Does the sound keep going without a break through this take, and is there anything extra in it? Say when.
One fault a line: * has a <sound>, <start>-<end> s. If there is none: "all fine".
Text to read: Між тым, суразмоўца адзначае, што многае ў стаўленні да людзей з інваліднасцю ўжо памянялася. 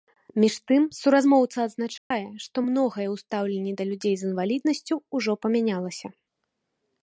* has a dropout, 2.0-2.1 s